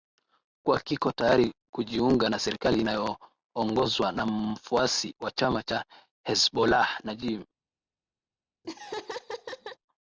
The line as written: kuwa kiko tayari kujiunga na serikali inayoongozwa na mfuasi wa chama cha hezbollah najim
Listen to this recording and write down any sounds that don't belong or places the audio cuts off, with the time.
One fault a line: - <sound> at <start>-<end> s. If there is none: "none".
- laugh at 8.6-9.8 s